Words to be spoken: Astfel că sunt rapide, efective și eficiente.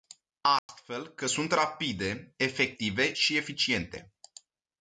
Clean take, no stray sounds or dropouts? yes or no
no